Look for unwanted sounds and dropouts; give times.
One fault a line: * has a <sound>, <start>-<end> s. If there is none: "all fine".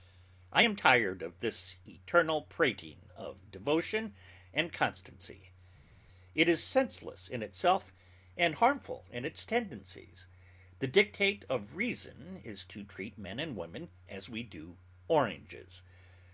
all fine